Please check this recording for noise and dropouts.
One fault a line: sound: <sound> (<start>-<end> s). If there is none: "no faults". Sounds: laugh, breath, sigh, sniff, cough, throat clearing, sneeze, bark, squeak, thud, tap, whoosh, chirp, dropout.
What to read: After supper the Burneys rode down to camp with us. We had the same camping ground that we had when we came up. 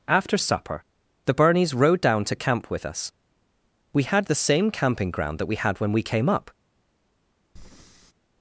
sound: breath (7.6-8.1 s)